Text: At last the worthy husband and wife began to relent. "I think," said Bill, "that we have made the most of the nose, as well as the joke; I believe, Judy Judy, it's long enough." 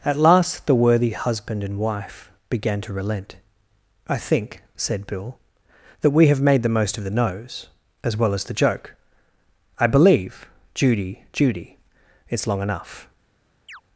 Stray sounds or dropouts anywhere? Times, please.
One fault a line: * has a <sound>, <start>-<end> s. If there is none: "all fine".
* has a chirp, 13.7-13.8 s